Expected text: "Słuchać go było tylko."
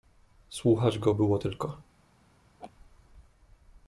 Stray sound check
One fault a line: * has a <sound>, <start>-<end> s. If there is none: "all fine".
* has a laugh, 2.6-2.7 s